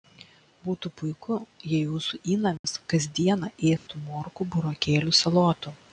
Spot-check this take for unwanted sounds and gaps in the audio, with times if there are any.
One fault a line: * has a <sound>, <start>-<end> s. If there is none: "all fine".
* has a dropout, 2.6-2.6 s
* has a dropout, 3.8-3.9 s